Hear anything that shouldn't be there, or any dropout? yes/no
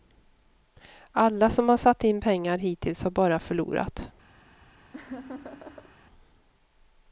yes